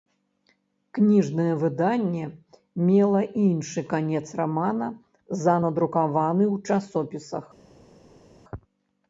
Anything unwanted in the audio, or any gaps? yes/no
no